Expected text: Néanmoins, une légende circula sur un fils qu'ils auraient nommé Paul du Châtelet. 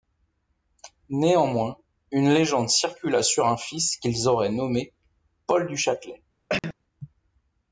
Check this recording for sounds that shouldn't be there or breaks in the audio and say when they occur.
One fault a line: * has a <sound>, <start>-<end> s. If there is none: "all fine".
* has a cough, 6.5-6.7 s